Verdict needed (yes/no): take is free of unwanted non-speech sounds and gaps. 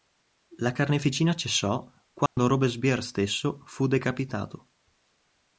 no